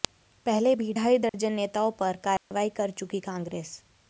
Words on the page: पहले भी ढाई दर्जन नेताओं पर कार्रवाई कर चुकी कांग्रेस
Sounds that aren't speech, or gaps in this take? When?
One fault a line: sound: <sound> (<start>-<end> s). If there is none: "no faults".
sound: dropout (1.3-1.3 s)
sound: dropout (2.4-2.5 s)